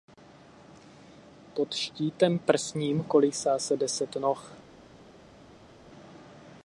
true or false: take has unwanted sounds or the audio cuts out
false